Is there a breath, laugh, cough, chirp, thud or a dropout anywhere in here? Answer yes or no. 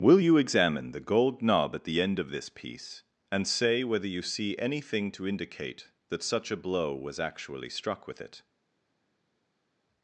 no